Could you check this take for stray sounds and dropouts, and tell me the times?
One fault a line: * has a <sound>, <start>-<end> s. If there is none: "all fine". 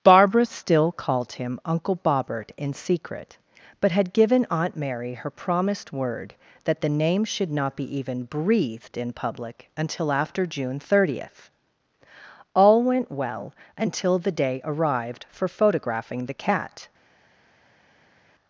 all fine